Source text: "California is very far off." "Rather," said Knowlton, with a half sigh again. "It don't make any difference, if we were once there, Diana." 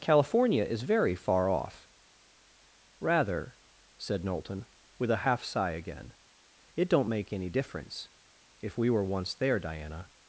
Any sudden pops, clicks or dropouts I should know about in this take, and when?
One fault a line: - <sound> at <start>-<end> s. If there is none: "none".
none